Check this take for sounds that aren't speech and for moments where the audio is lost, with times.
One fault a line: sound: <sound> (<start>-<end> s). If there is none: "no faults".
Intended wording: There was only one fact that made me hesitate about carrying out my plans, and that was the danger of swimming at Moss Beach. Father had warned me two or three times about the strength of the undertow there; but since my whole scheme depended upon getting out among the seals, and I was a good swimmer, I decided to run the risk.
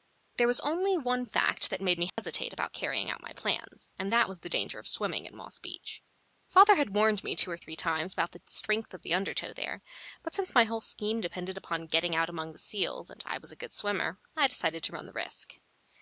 sound: dropout (2.1-2.2 s)